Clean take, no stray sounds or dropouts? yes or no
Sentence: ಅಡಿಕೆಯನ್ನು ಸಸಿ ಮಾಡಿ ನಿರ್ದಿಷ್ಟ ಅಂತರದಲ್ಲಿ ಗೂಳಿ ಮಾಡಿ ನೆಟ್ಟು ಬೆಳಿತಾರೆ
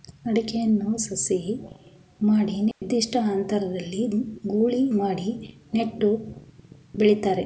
no